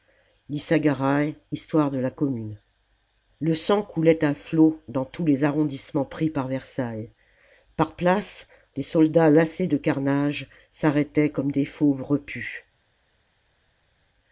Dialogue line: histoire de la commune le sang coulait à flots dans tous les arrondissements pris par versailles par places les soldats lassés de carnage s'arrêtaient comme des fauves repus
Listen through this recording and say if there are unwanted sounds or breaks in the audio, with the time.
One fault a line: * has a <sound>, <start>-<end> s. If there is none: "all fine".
all fine